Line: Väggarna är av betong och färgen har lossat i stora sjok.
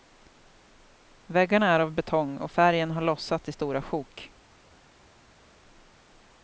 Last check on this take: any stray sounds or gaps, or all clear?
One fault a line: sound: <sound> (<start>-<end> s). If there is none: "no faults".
no faults